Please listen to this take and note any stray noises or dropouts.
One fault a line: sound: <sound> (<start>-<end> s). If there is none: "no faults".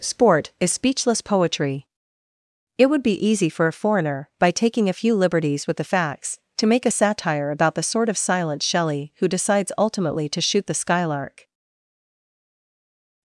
no faults